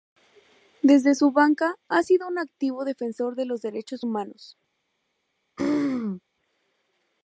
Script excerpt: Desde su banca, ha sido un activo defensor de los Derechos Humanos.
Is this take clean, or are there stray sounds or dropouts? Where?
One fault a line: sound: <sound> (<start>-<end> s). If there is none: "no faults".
sound: throat clearing (5.6-6.2 s)